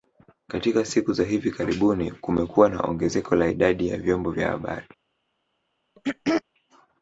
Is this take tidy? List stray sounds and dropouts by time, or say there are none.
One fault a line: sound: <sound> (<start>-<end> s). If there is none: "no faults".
sound: throat clearing (6.0-6.4 s)